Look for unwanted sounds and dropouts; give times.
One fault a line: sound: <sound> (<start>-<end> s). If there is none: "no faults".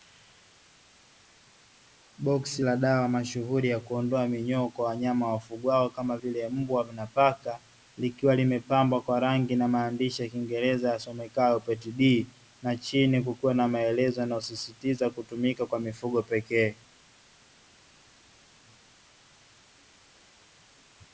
no faults